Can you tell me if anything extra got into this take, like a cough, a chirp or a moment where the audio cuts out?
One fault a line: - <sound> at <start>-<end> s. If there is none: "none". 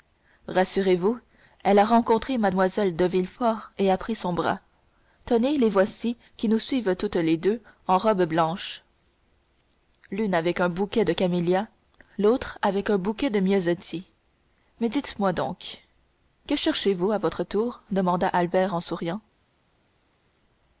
none